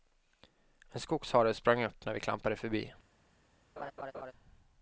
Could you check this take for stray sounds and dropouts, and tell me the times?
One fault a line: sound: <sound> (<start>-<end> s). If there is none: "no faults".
sound: laugh (3.8-4.3 s)